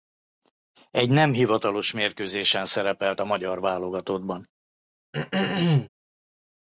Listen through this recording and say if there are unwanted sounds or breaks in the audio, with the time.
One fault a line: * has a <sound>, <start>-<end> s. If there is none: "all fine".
* has a throat clearing, 5.1-5.9 s